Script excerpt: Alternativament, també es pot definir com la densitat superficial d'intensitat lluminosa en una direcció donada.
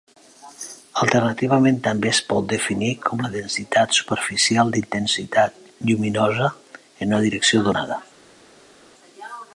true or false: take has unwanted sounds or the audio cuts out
false